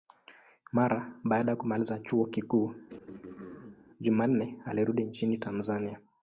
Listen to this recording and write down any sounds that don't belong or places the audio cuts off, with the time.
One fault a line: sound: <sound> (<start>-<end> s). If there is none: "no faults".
sound: throat clearing (2.9-3.9 s)